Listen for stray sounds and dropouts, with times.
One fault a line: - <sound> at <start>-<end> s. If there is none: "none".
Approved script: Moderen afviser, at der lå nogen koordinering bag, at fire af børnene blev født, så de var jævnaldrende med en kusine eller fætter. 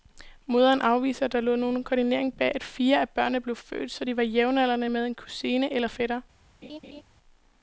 - laugh at 6.6-7.0 s